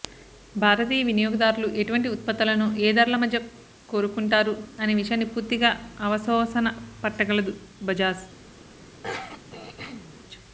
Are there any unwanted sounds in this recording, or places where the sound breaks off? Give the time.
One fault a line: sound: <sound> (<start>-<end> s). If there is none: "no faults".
sound: throat clearing (9.0-10.2 s)